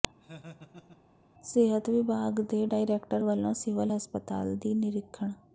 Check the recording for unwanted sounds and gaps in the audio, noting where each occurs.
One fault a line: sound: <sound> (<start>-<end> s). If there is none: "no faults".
sound: laugh (0.2-1.0 s)